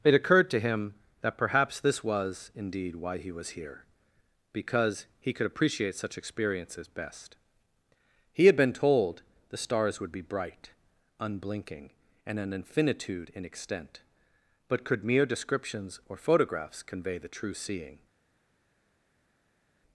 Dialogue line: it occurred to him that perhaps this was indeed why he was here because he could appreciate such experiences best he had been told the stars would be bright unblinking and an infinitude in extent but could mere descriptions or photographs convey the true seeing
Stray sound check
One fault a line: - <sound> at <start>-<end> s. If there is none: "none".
none